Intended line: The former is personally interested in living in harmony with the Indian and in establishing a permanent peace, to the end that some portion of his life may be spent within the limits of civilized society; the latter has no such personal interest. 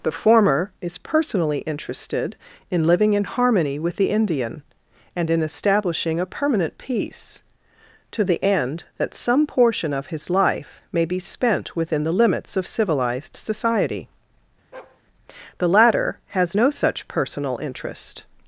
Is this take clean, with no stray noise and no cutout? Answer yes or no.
no